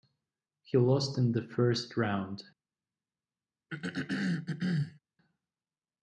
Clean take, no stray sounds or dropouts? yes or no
no